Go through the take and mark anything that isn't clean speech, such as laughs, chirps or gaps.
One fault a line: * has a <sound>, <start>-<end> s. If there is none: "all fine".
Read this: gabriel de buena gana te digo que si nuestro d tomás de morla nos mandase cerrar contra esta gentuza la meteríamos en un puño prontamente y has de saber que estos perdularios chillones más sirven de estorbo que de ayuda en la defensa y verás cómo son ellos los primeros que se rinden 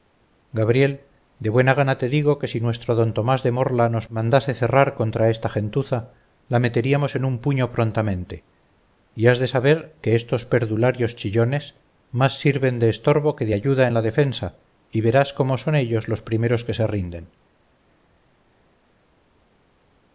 all fine